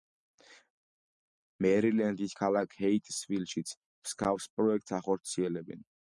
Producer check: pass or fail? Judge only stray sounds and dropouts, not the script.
pass